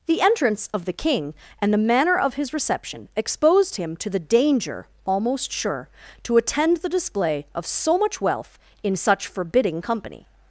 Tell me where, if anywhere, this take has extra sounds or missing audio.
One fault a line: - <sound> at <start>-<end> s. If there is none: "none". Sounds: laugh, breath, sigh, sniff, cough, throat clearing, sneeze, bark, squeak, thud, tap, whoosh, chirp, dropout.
none